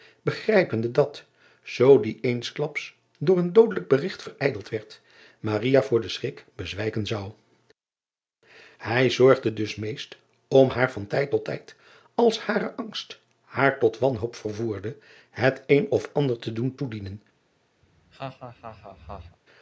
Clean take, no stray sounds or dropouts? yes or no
no